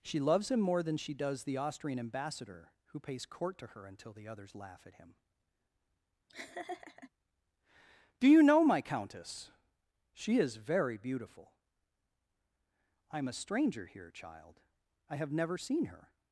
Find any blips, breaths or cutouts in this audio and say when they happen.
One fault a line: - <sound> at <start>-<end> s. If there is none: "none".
- laugh at 6.3-7.1 s